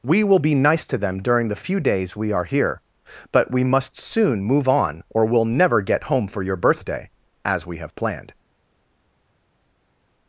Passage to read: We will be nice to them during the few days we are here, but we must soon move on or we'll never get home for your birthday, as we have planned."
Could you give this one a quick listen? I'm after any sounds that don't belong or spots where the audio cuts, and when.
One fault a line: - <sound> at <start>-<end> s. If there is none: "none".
none